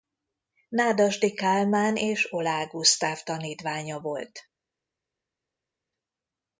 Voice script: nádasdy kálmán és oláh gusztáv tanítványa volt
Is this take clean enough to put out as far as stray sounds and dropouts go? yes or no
yes